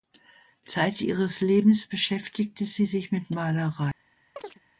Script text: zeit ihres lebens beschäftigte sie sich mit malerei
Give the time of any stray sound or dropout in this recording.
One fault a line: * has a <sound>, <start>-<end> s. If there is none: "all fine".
* has a chirp, 4.4-4.6 s